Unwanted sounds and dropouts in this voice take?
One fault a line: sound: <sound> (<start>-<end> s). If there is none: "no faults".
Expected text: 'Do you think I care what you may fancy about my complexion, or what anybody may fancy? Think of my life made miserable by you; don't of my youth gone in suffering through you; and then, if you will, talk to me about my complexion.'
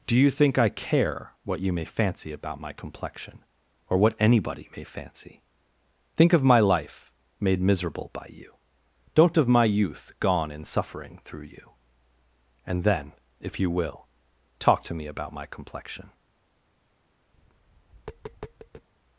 sound: tap (17.3-18.9 s)